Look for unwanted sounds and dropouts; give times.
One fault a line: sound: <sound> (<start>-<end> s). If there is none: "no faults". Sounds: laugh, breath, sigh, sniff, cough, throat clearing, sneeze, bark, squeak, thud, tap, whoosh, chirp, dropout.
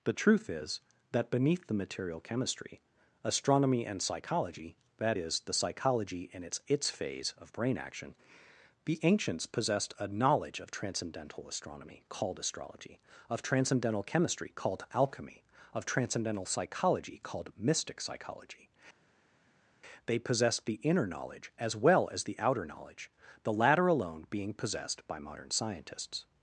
no faults